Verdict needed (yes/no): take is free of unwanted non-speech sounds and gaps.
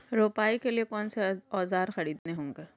no